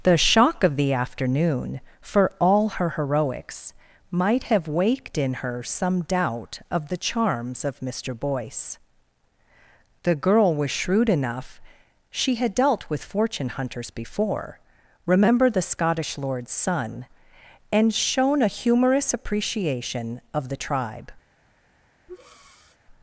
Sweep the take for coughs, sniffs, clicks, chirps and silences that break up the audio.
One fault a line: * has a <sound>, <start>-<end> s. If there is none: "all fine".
* has a breath, 22.1-22.8 s